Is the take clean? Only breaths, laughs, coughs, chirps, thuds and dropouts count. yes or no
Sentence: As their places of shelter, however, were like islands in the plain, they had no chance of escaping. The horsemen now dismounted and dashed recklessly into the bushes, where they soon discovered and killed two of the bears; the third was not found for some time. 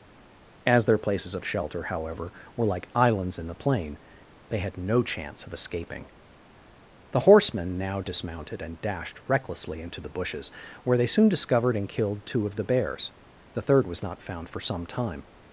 yes